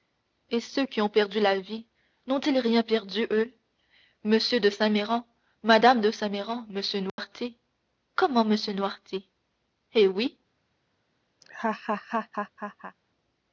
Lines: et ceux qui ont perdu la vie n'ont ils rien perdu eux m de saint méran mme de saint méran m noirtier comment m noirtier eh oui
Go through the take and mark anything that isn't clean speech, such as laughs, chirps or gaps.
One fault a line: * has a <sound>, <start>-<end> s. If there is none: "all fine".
* has a dropout, 7.1-7.2 s
* has a laugh, 11.4-13.0 s